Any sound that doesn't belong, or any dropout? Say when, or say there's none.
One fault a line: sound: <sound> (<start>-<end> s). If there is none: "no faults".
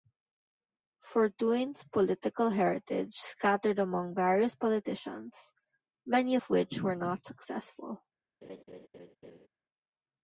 sound: laugh (8.4-9.5 s)